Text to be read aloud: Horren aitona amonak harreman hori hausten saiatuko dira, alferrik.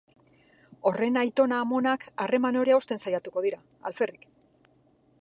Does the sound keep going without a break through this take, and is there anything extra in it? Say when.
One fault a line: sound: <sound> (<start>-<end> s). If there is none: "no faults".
no faults